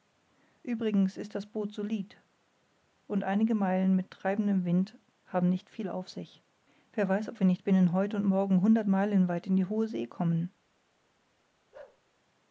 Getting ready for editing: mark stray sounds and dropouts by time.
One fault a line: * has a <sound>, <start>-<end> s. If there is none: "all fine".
* has a bark, 11.7-12.0 s